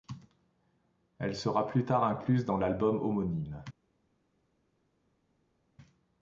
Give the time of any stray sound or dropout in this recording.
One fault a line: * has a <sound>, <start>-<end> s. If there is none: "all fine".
all fine